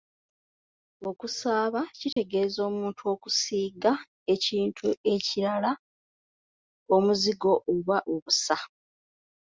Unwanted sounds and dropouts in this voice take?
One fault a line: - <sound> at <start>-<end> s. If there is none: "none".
- dropout at 2.1-2.2 s